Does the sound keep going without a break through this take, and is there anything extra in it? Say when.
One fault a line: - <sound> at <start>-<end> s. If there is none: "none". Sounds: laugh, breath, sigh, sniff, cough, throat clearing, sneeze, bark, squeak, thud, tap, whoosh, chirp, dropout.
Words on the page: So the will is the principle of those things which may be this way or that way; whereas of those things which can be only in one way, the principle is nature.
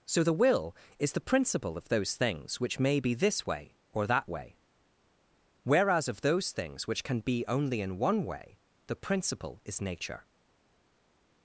none